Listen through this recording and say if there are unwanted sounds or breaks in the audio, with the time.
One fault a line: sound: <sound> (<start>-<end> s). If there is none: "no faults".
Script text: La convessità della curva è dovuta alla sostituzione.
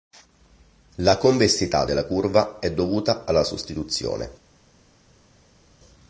no faults